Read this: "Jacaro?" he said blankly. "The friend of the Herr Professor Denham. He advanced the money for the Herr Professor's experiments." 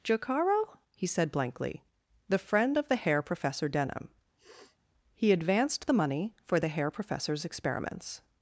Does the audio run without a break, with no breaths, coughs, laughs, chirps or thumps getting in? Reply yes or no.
no